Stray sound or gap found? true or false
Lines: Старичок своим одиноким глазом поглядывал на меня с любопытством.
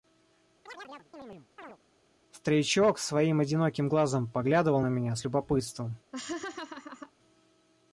true